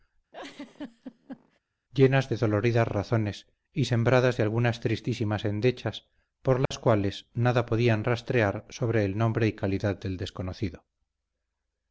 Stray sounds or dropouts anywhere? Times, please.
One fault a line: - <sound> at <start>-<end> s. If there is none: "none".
- laugh at 0.3-1.6 s
- dropout at 6.7-6.7 s